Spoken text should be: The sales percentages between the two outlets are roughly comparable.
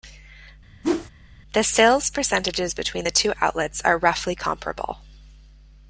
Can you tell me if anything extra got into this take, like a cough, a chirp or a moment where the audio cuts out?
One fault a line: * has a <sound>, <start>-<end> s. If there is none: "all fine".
* has a whoosh, 0.8-1.1 s